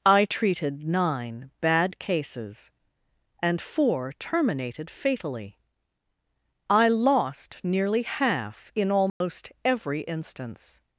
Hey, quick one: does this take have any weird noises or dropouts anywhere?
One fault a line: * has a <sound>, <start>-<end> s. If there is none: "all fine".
* has a dropout, 9.1-9.2 s